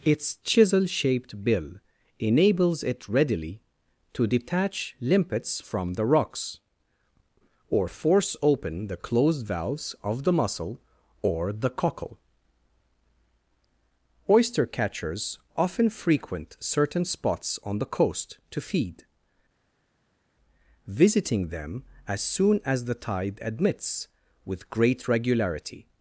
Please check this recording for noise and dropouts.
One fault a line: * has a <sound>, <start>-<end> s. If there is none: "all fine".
all fine